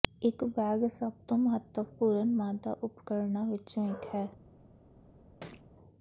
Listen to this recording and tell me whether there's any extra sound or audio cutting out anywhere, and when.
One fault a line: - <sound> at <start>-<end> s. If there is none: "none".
- thud at 5.4-5.7 s